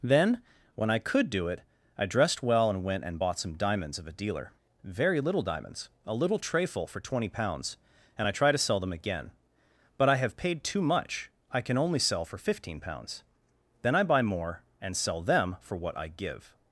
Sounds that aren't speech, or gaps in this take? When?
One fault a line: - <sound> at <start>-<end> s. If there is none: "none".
none